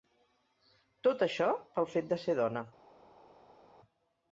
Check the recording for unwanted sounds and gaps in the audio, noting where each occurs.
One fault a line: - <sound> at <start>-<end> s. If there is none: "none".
none